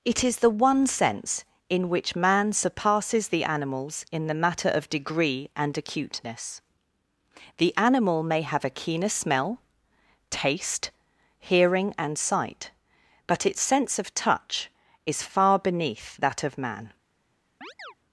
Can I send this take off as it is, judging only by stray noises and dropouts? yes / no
no